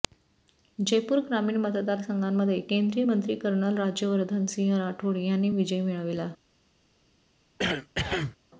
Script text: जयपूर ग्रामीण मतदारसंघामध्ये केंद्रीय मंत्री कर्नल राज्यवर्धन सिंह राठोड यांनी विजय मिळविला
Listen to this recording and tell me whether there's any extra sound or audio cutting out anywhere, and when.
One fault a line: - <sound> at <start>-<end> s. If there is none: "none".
- cough at 7.6-8.4 s